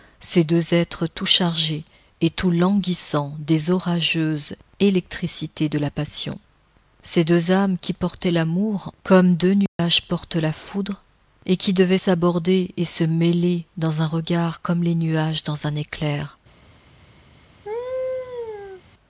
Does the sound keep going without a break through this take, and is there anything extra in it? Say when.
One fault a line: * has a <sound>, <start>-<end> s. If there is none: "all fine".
* has a dropout, 9.7-9.8 s
* has a laugh, 17.6-18.8 s